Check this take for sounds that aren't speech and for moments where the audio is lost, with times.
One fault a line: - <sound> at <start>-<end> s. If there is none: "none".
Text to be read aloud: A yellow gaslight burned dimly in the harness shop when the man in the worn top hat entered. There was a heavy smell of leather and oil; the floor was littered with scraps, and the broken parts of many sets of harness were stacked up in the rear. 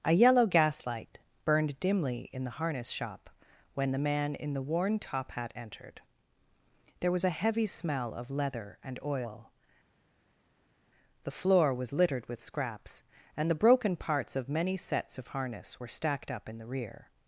none